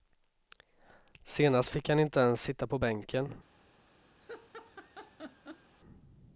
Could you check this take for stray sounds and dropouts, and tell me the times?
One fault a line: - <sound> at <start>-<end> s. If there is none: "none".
- laugh at 4.2-5.7 s